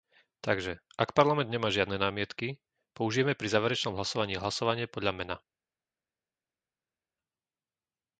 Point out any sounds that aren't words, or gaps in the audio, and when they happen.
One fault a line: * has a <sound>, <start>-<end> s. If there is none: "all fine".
all fine